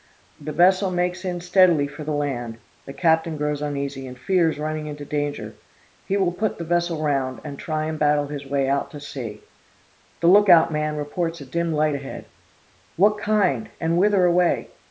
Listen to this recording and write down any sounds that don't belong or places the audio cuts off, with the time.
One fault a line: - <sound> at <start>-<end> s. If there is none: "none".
none